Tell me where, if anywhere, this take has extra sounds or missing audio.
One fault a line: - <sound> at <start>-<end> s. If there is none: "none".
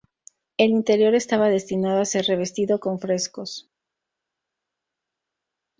none